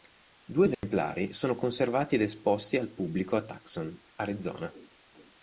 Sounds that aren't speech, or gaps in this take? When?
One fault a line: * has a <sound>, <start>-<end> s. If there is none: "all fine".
* has a dropout, 0.7-0.8 s